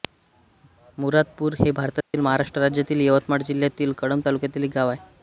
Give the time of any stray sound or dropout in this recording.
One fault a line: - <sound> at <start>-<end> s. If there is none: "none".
- dropout at 2.0-2.1 s